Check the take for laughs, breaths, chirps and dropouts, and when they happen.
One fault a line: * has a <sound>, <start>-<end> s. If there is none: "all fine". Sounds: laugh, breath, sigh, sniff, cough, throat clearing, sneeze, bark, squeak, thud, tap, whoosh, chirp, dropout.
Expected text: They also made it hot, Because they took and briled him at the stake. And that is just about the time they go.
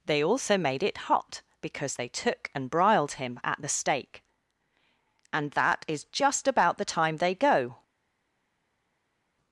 all fine